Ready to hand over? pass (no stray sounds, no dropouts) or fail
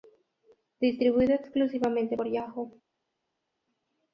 pass